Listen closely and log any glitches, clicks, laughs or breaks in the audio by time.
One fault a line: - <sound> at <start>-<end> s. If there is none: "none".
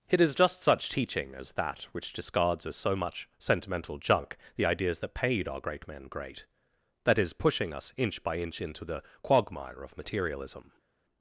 none